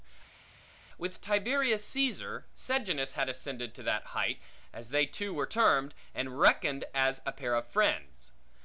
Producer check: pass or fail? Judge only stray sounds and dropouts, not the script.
pass